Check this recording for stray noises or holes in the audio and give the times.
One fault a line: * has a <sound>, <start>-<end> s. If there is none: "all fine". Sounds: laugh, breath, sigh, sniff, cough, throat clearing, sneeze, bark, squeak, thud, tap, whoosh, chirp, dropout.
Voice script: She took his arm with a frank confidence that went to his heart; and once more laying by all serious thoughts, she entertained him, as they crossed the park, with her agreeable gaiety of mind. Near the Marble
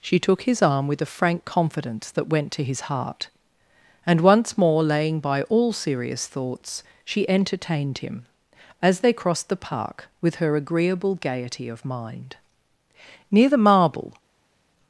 all fine